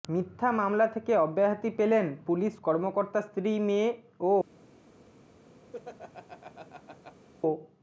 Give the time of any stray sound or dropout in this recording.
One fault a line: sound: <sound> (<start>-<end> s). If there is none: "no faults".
sound: laugh (5.7-7.3 s)